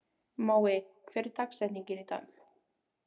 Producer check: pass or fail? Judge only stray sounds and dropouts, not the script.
pass